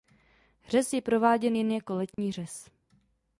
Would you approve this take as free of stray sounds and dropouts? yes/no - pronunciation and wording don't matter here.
no